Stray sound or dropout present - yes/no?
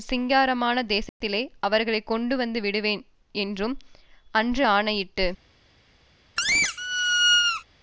yes